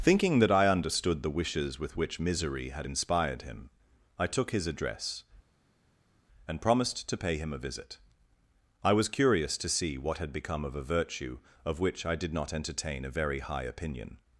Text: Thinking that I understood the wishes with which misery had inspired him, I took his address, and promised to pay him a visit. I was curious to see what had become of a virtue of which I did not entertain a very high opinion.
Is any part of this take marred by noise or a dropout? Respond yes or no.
no